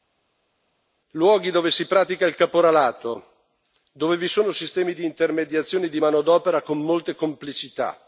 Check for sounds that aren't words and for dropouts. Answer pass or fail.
pass